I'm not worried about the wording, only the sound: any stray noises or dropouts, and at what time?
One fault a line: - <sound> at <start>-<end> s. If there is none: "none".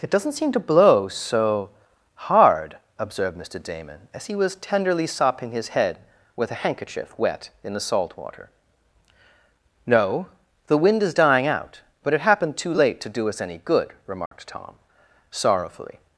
- dropout at 14.3-14.3 s